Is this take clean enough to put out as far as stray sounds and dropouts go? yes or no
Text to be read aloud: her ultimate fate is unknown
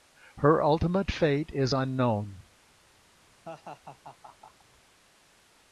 no